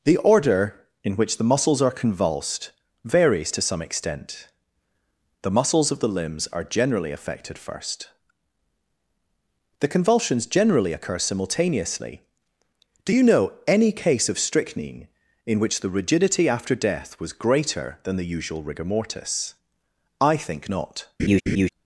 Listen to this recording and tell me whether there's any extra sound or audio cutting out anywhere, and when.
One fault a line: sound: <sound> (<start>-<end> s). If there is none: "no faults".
sound: laugh (21.2-21.7 s)